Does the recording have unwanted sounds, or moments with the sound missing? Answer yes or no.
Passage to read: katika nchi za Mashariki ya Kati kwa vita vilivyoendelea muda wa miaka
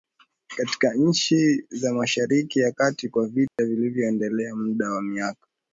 yes